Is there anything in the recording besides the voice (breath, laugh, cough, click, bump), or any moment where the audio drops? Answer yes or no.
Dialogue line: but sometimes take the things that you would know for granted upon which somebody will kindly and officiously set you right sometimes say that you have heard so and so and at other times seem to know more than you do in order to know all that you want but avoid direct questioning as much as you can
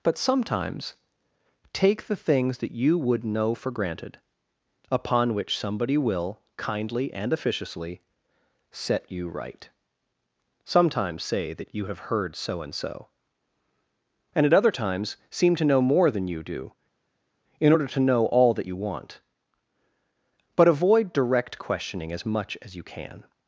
no